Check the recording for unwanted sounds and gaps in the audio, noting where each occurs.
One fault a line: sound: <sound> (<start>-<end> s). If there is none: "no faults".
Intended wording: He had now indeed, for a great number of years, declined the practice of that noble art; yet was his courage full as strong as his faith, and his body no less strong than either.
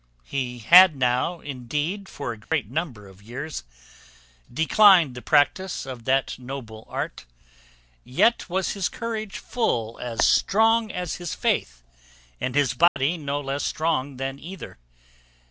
sound: dropout (2.4-2.5 s)
sound: dropout (12.9-13.0 s)